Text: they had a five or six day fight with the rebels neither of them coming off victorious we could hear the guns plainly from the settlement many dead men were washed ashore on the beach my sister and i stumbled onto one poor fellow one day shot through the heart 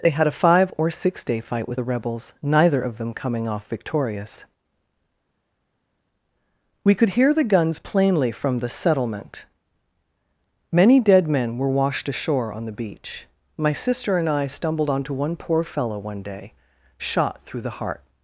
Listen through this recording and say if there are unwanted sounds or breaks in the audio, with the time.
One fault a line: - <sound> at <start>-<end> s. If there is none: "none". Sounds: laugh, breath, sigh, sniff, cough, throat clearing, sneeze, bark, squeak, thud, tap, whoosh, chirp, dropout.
none